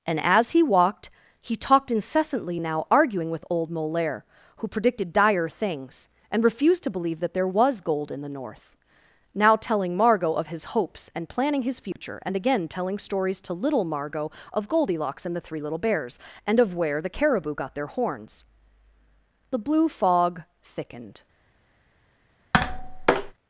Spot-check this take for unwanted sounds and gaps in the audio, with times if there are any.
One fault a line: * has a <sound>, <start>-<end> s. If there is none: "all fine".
* has a dropout, 11.9-12.0 s
* has a tap, 22.5-23.3 s